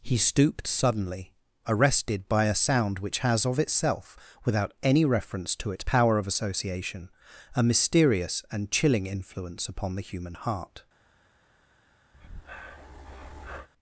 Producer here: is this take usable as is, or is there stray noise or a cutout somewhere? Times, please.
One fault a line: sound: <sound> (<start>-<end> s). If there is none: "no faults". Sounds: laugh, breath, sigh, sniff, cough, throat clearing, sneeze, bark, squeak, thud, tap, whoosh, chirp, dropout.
sound: breath (12.1-13.7 s)